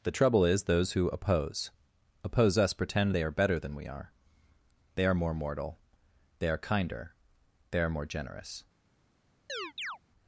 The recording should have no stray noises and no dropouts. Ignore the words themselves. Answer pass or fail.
fail